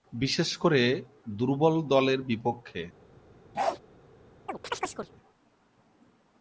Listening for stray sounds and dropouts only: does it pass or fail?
fail